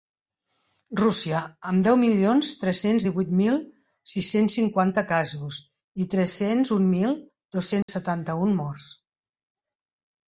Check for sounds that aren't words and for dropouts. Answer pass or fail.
fail